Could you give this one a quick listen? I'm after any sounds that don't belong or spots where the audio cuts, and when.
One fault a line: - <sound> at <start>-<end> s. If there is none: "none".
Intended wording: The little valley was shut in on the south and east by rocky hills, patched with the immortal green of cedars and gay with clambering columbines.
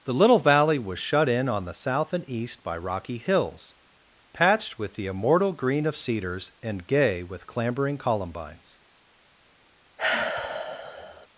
- sigh at 10.0-11.3 s